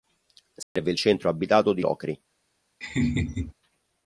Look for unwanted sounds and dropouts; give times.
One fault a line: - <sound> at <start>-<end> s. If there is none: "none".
- dropout at 0.6-0.8 s
- laugh at 2.8-3.5 s